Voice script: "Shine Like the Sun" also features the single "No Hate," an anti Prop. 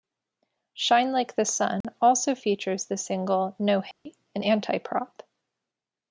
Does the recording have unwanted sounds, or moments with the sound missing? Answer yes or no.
yes